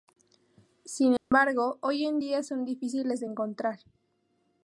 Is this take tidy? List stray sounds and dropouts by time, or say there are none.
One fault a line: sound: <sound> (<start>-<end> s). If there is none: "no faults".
sound: dropout (1.2-1.3 s)